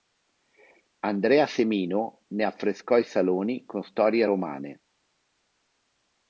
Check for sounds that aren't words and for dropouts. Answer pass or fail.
pass